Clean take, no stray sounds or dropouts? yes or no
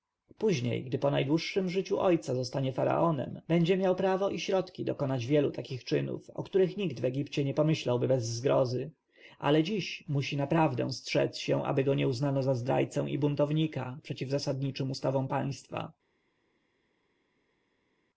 yes